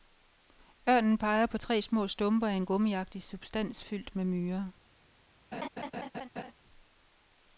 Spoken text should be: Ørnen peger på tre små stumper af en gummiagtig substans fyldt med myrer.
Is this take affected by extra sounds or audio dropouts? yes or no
yes